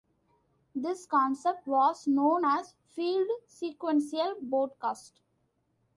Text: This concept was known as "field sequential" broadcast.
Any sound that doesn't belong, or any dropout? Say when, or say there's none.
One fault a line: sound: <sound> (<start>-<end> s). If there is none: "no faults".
no faults